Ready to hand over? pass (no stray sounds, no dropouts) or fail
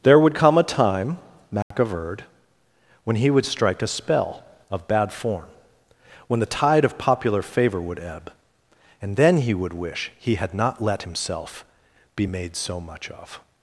fail